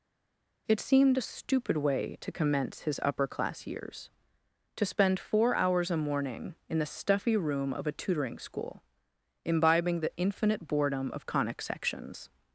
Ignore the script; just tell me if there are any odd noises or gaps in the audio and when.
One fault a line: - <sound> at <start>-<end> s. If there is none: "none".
none